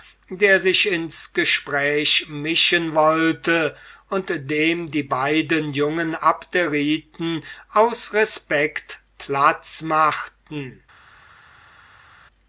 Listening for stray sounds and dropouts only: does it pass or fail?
pass